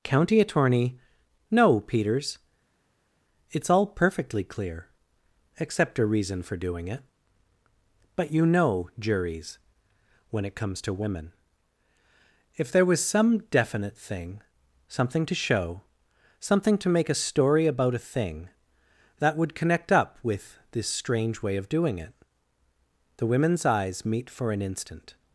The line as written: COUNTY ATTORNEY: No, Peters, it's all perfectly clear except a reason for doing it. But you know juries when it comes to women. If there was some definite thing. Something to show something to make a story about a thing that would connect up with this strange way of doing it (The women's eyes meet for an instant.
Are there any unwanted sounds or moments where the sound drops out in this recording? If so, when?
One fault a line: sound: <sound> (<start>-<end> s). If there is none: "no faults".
no faults